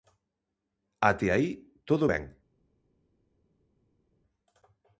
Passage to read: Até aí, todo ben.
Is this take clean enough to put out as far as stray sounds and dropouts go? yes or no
yes